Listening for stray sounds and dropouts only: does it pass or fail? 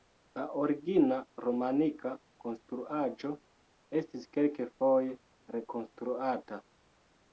pass